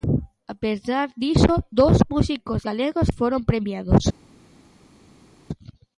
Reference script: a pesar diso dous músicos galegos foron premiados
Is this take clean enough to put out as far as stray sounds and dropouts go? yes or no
yes